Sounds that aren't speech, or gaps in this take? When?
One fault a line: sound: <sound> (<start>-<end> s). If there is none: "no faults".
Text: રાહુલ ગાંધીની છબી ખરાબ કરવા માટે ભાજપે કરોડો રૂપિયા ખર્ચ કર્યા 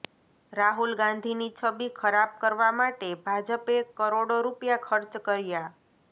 no faults